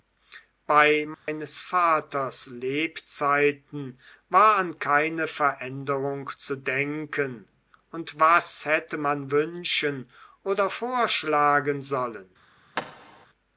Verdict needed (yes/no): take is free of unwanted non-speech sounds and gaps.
no